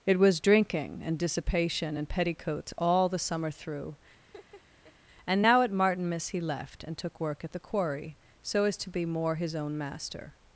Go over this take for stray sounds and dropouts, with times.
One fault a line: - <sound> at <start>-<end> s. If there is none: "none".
- laugh at 4.2-4.9 s